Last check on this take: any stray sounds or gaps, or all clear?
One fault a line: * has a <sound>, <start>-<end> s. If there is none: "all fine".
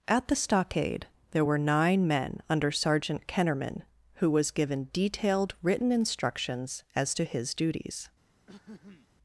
* has a throat clearing, 8.5-9.1 s